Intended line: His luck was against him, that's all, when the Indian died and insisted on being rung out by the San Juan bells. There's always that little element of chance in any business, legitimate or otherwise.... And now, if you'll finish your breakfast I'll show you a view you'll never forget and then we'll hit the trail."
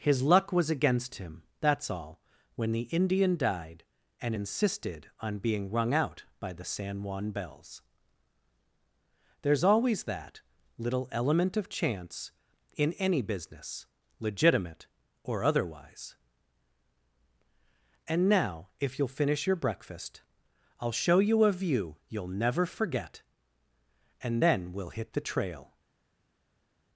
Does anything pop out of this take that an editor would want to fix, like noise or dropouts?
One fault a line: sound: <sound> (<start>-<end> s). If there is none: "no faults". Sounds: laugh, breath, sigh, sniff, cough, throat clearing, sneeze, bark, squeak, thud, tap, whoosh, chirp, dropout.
no faults